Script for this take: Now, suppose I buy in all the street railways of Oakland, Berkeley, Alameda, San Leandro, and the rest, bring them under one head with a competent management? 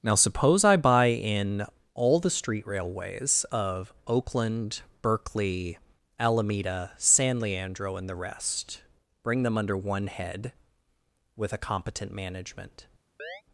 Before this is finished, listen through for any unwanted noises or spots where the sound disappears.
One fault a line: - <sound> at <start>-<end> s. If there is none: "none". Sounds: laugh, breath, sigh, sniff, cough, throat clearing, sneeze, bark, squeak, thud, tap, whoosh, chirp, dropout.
- chirp at 13.2-13.4 s